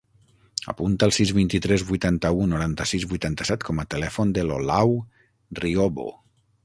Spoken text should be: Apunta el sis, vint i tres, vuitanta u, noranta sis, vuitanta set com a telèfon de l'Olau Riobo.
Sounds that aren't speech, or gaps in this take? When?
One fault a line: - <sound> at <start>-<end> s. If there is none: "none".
none